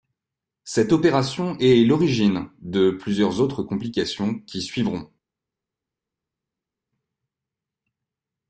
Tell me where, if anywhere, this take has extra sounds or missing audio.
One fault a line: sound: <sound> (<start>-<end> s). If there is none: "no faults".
no faults